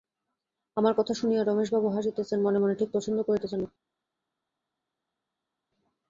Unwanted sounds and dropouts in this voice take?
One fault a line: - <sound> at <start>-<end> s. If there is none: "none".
none